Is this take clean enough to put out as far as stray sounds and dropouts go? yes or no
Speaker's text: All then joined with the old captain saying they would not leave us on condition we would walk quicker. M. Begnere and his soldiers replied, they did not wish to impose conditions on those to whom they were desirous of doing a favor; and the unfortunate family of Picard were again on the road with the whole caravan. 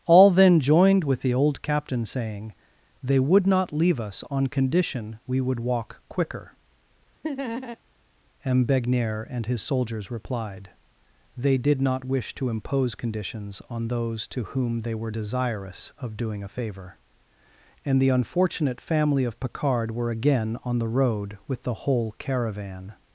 no